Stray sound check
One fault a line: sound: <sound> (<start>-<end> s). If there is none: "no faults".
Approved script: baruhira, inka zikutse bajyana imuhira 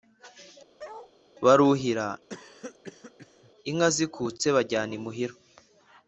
sound: bark (0.8-1.1 s)
sound: cough (2.3-3.5 s)